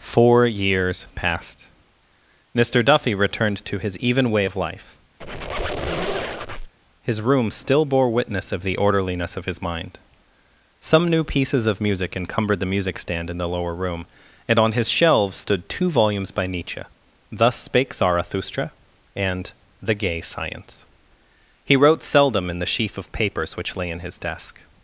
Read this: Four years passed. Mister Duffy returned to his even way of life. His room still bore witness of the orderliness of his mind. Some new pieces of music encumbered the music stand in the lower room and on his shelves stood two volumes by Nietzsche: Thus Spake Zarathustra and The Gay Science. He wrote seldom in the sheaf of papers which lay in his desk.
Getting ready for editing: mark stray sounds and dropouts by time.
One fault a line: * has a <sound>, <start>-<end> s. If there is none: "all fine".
* has a squeak, 5.2-6.7 s